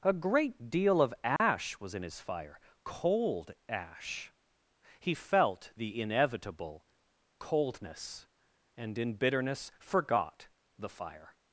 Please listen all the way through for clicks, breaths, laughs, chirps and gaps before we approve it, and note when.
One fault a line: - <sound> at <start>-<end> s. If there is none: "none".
- dropout at 1.4-1.4 s